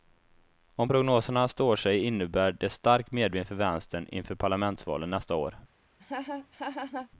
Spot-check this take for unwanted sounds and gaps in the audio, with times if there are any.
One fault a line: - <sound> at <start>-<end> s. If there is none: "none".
- laugh at 6.0-7.1 s